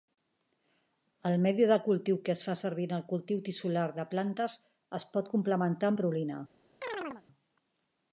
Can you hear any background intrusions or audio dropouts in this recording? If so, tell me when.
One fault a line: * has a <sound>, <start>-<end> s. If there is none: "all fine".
* has a chirp, 6.8-7.2 s